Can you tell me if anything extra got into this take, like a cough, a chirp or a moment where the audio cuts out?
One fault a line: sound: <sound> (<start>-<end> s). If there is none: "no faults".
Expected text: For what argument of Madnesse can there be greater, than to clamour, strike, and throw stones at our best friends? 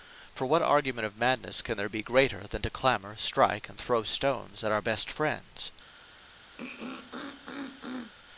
sound: throat clearing (6.6-8.1 s)